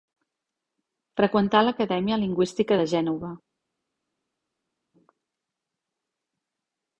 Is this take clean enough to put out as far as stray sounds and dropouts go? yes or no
yes